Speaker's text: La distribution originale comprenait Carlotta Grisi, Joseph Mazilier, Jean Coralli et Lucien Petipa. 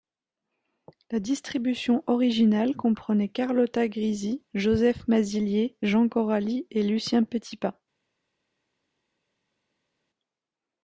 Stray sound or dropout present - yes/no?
no